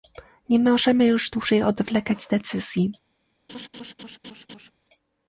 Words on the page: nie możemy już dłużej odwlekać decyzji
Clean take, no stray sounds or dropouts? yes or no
no